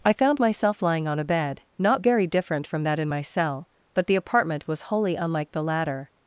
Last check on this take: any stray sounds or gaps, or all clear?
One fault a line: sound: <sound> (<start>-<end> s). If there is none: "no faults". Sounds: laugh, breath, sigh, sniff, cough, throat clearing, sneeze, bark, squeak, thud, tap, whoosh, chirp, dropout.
no faults